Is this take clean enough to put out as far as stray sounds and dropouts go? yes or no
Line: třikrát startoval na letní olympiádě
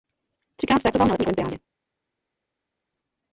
yes